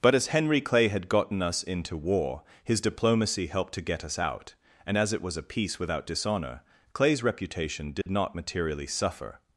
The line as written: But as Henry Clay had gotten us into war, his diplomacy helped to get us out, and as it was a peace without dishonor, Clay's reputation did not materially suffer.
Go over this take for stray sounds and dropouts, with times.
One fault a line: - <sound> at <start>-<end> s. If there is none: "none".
- dropout at 8.0-8.1 s